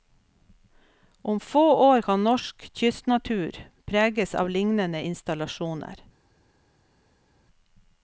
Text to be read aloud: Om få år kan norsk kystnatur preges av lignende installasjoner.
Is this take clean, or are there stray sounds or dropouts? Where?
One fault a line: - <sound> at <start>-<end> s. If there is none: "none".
none